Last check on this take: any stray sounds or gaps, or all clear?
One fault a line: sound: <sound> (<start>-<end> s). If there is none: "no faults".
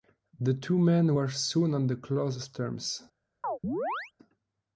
sound: chirp (3.4-4.1 s)